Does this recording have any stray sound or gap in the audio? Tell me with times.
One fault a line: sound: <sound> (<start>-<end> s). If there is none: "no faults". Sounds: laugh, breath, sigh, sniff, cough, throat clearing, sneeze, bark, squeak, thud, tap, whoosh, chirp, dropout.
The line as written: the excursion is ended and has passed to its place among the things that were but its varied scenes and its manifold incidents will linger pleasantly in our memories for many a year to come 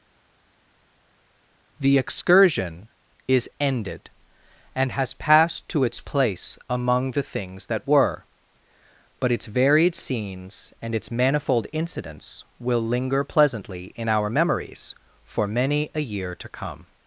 no faults